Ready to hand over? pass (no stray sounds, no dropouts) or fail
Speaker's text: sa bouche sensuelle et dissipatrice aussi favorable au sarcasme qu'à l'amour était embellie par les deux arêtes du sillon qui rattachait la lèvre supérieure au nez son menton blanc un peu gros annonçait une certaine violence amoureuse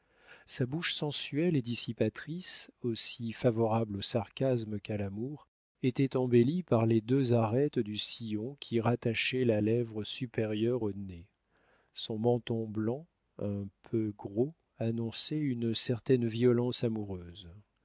pass